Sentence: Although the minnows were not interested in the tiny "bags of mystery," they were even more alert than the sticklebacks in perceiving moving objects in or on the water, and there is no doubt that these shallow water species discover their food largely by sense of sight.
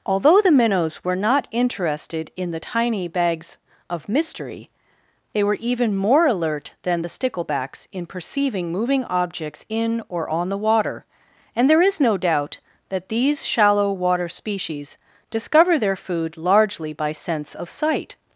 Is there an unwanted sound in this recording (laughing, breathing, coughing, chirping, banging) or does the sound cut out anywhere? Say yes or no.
no